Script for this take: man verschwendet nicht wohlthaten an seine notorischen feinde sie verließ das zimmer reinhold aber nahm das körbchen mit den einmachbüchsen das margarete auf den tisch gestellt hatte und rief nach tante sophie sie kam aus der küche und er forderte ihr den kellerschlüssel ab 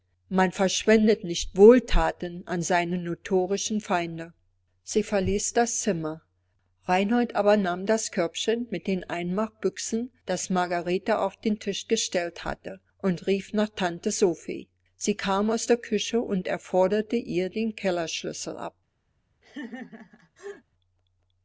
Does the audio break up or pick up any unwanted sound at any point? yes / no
yes